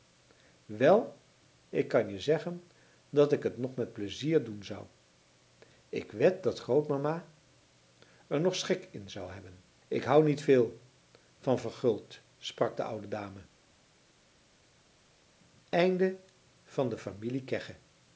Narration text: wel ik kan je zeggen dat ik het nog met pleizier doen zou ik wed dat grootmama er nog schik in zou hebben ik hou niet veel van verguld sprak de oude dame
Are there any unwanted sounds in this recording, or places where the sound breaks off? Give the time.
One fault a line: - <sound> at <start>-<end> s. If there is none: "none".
none